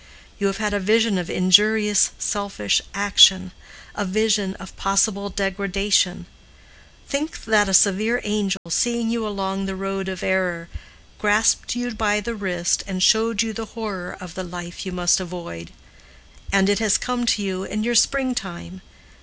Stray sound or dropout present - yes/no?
yes